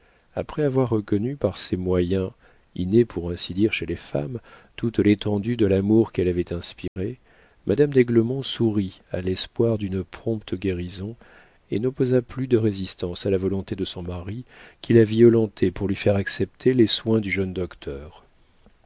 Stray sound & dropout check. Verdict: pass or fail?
fail